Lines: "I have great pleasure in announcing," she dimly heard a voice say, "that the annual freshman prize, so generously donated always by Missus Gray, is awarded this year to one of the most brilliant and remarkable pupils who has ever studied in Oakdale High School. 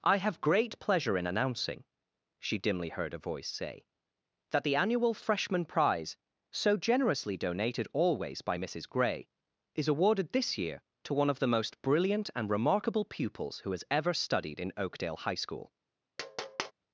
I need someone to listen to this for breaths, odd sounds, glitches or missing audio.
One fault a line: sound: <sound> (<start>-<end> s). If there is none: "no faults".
sound: tap (16.2-16.7 s)